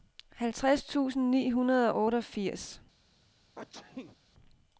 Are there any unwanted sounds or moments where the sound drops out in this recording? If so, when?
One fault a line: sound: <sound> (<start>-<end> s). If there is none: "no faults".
sound: sneeze (3.6-4.2 s)